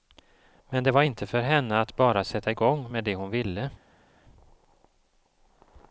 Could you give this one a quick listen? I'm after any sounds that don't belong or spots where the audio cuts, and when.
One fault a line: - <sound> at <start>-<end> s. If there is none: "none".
none